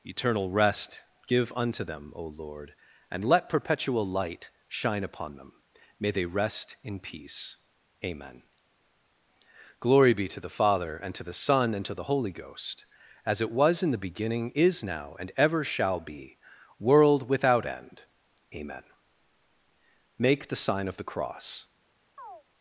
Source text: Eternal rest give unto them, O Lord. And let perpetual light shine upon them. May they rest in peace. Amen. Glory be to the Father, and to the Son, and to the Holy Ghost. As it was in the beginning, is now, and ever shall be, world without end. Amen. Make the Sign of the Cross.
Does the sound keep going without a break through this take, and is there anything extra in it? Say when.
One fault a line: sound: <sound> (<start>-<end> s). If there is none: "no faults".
sound: chirp (22.2-22.4 s)